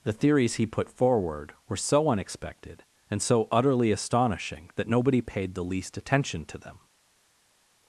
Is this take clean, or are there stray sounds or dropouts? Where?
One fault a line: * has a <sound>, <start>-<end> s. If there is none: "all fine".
all fine